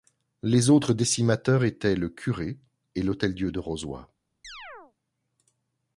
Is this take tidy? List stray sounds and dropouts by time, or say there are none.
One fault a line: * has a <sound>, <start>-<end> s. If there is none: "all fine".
* has a chirp, 4.4-4.9 s